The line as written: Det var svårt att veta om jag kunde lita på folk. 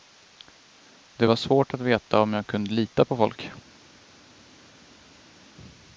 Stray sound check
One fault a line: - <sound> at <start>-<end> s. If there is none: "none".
none